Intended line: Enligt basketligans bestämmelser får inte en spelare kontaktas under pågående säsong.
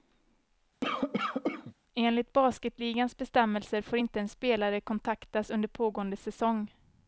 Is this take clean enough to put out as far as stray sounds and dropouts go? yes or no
no